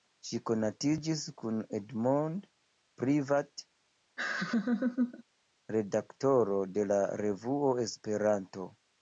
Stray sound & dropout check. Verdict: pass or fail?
fail